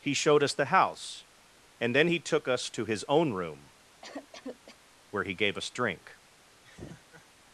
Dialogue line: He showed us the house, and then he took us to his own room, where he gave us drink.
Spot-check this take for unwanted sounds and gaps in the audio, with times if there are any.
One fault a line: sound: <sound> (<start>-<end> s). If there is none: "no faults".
sound: cough (4.0-4.8 s)
sound: laugh (6.6-7.3 s)